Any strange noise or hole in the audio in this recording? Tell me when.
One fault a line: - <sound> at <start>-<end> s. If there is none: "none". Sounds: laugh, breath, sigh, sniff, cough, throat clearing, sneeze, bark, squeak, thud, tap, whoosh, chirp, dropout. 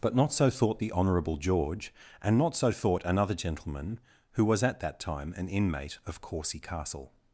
none